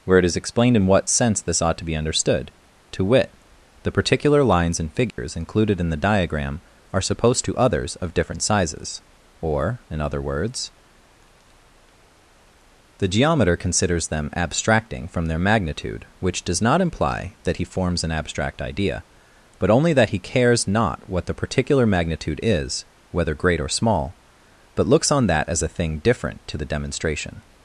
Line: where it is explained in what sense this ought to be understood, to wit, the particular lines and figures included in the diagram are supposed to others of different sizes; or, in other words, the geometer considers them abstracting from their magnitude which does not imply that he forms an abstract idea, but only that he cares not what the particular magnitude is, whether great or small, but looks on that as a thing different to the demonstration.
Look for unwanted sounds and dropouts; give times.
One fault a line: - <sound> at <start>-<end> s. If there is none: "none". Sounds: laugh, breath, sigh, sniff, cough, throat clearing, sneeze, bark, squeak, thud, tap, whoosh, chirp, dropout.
- dropout at 5.1-5.2 s